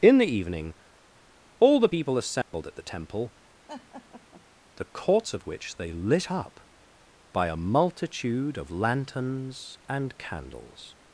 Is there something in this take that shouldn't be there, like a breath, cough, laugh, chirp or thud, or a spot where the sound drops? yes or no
yes